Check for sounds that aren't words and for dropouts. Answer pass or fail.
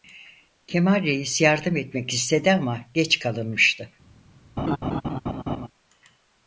fail